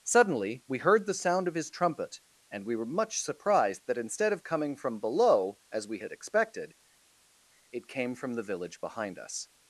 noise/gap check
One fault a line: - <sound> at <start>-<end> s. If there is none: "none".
none